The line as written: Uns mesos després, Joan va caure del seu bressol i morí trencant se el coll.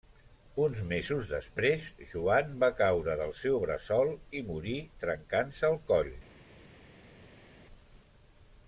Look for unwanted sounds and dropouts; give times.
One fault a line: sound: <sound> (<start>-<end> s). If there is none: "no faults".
no faults